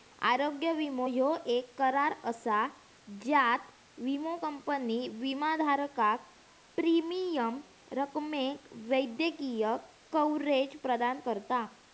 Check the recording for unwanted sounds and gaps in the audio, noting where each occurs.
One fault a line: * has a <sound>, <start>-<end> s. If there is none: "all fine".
all fine